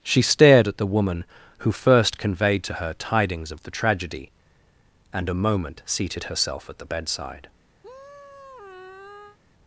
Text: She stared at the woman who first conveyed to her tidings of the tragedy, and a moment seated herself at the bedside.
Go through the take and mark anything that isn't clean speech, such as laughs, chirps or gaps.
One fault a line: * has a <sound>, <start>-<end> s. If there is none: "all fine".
* has a sigh, 7.8-9.4 s